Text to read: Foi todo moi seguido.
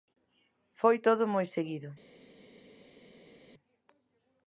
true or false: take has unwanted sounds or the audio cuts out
false